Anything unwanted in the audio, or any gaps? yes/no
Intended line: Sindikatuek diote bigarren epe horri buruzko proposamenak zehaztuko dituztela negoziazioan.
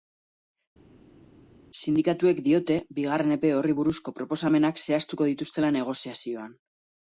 no